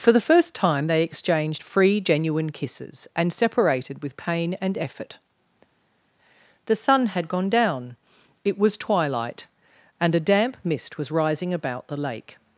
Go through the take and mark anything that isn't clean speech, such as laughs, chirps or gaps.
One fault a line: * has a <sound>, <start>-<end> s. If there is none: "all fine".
all fine